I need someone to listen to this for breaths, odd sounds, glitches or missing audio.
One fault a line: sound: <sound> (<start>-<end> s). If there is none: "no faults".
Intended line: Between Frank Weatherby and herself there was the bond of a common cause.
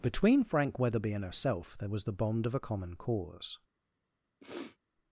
sound: sniff (4.4-4.8 s)